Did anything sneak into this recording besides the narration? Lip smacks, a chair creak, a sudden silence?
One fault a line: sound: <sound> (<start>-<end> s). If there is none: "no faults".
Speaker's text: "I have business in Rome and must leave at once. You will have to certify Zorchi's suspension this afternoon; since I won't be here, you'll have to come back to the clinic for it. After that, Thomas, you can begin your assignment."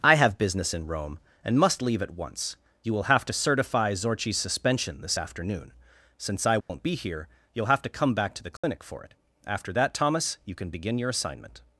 sound: dropout (6.6-6.7 s)
sound: dropout (8.6-8.6 s)